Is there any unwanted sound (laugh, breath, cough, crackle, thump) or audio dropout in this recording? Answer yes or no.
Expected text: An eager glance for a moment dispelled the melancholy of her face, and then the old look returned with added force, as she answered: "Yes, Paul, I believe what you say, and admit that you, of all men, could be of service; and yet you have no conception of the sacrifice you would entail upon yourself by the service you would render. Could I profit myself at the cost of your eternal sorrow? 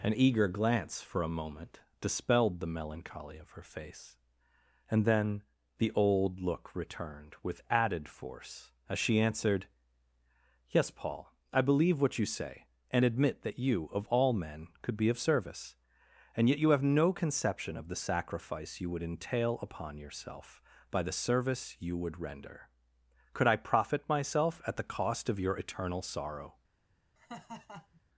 yes